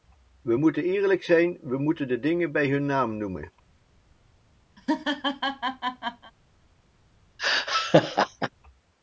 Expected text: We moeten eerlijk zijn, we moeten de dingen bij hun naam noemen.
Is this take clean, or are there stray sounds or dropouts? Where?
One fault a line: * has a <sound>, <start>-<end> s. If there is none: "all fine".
* has a laugh, 4.8-6.3 s
* has a laugh, 7.4-8.5 s